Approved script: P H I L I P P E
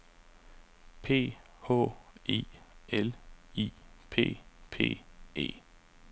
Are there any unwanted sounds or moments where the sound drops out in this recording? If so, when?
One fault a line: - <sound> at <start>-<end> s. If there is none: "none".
none